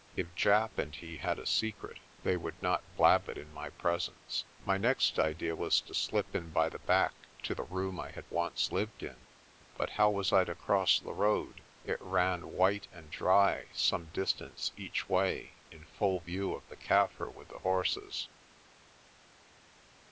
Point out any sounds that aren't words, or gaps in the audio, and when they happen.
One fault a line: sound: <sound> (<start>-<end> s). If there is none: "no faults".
no faults